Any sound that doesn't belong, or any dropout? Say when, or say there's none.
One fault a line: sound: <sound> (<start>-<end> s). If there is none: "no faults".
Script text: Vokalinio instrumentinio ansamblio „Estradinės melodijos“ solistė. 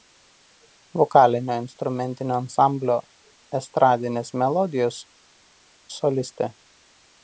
no faults